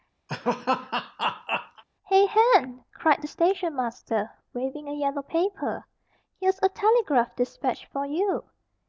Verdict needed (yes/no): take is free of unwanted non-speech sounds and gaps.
no